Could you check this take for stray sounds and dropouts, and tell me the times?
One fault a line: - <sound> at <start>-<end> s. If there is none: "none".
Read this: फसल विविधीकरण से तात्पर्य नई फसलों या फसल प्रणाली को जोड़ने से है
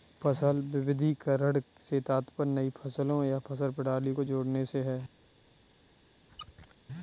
- squeak at 6.3-6.7 s